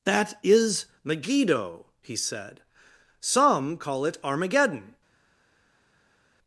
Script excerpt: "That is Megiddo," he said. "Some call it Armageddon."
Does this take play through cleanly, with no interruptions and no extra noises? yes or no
yes